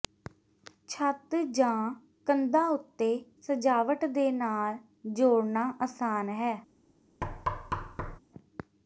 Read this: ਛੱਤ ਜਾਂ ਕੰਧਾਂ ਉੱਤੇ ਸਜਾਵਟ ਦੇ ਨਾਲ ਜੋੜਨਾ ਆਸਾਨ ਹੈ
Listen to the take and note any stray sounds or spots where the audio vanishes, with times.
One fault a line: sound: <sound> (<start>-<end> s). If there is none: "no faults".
sound: thud (7.2-8.2 s)